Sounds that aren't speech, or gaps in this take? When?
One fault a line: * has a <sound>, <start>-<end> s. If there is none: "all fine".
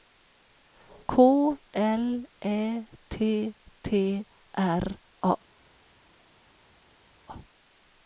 all fine